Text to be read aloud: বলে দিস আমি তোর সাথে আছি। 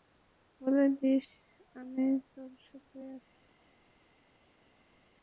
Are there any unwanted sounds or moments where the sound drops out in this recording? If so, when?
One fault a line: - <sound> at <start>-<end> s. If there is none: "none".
none